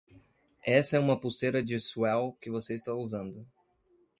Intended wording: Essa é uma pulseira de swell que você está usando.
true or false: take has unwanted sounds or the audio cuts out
false